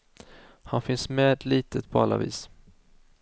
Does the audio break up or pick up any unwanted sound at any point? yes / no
no